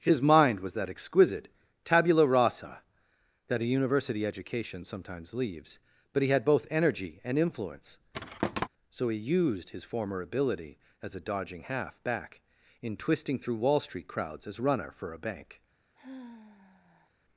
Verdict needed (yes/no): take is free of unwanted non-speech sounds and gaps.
no